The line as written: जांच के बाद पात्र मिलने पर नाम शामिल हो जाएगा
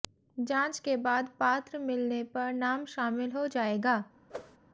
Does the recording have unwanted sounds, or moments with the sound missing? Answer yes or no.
yes